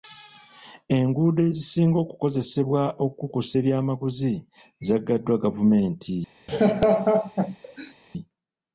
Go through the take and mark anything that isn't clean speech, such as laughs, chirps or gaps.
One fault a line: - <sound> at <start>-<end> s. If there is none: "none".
- laugh at 6.5-7.9 s